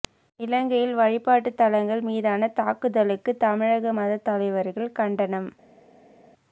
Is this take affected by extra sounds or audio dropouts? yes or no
no